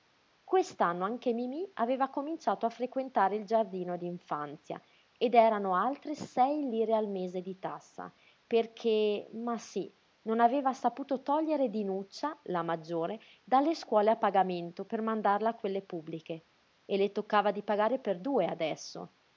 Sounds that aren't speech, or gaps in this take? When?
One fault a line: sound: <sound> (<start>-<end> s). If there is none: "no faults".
no faults